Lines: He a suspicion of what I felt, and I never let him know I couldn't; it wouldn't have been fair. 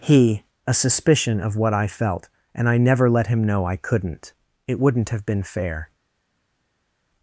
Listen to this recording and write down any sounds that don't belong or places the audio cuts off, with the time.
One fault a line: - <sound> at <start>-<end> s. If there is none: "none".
none